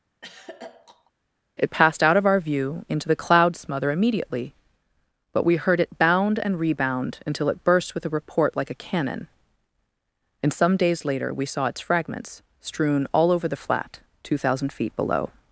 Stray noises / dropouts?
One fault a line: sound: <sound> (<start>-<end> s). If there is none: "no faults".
sound: throat clearing (0.2-1.1 s)